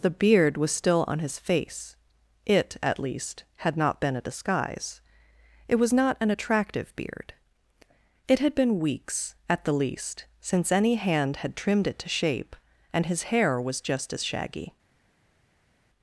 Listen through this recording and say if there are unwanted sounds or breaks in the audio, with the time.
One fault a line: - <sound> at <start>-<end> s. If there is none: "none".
none